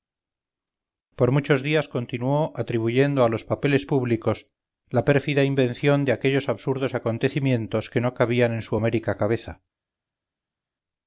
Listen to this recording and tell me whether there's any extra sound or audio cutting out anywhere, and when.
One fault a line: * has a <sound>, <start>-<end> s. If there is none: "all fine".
all fine